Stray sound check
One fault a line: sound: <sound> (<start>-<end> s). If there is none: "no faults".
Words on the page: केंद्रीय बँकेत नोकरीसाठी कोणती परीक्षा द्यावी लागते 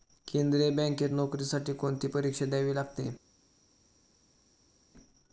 no faults